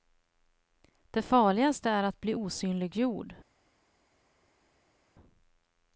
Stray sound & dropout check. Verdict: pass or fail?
pass